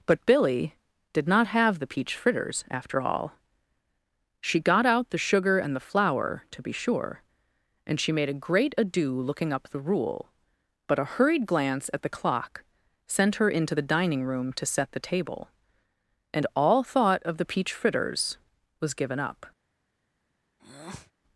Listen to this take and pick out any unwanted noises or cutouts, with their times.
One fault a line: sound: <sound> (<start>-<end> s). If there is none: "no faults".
sound: breath (20.6-21.1 s)